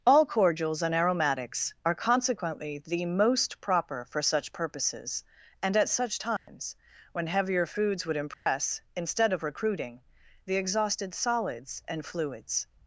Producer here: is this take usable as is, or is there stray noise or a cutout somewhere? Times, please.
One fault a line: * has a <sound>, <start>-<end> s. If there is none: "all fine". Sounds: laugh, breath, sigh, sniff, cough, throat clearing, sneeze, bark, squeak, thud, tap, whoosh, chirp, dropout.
* has a dropout, 6.4-6.5 s
* has a dropout, 8.3-8.5 s